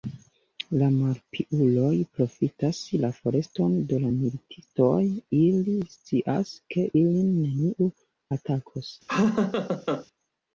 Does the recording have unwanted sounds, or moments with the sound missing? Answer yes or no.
yes